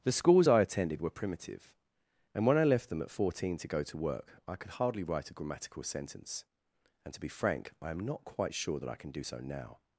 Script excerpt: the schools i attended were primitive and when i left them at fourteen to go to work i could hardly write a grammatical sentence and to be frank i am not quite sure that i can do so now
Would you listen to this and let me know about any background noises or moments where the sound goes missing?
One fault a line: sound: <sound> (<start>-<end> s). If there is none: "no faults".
no faults